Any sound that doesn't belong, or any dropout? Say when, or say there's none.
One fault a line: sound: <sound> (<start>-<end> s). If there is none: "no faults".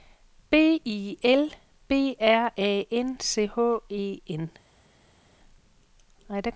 no faults